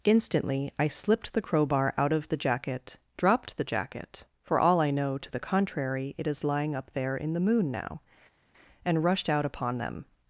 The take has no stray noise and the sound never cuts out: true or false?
true